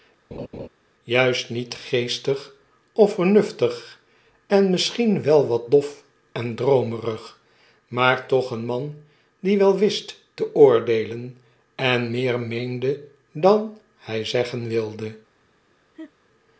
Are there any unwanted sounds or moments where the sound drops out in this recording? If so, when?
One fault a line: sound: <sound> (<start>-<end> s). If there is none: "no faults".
sound: laugh (0.3-0.7 s)
sound: laugh (15.9-16.1 s)